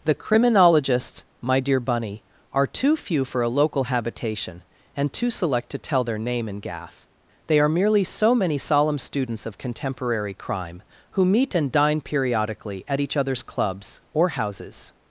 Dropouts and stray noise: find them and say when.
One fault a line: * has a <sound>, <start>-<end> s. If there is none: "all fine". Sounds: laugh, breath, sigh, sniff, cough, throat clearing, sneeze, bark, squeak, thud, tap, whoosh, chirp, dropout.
all fine